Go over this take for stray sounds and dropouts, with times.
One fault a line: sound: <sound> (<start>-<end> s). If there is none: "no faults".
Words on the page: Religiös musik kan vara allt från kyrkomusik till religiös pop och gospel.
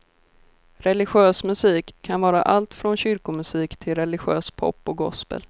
no faults